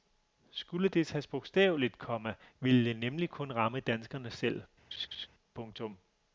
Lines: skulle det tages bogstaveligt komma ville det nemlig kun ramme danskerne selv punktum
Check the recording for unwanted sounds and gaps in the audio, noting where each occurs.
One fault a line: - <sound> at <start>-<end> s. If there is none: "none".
- laugh at 4.9-5.3 s